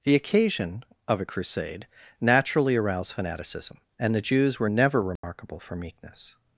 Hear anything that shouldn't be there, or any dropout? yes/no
yes